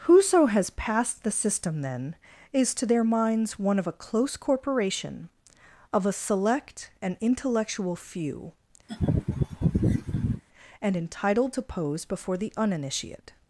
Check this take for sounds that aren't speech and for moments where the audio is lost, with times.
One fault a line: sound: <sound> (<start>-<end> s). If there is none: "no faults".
sound: laugh (8.9-10.4 s)